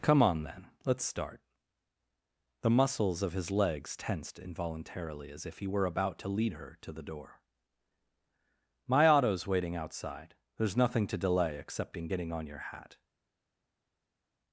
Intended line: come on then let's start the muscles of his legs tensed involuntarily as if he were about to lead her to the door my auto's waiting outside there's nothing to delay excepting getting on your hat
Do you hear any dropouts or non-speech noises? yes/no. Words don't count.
no